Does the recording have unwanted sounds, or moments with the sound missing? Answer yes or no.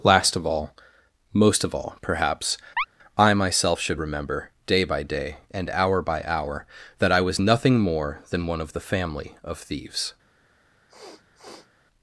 yes